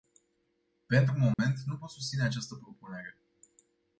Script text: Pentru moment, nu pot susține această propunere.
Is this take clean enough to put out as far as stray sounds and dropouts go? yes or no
no